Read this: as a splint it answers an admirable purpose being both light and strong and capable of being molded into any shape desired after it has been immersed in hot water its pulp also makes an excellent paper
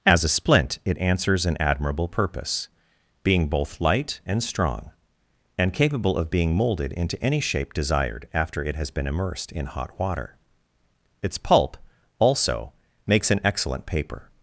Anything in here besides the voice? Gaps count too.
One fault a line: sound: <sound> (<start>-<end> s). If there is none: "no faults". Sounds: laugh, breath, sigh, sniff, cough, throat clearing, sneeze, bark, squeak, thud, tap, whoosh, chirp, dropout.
no faults